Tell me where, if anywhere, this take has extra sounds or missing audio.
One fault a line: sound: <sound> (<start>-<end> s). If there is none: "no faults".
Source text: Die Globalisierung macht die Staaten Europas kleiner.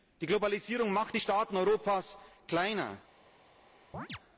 sound: chirp (3.9-4.2 s)